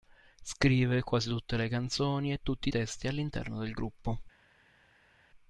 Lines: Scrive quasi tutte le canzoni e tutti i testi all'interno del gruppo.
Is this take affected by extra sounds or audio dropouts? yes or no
no